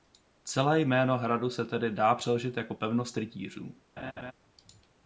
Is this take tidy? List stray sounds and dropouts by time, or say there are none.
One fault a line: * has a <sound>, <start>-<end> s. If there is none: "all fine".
* has a laugh, 4.0-4.3 s